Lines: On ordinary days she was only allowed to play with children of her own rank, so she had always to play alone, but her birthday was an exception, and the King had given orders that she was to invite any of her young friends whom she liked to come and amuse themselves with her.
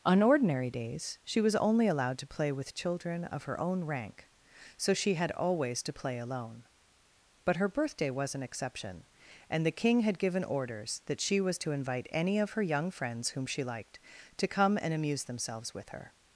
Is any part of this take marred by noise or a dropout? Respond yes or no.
no